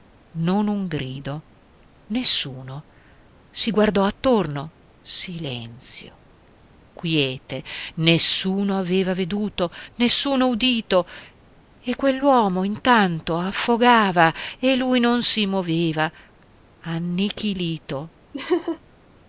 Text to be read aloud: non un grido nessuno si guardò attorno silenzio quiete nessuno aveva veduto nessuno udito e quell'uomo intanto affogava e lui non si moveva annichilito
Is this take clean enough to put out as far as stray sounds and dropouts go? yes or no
no